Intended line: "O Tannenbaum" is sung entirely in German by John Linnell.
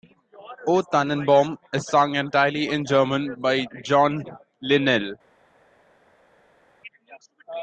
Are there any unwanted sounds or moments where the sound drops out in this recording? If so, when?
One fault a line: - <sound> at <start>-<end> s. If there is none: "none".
none